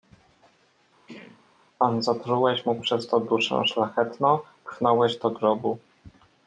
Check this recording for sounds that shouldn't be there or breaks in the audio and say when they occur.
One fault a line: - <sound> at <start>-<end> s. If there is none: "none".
- throat clearing at 1.1-1.5 s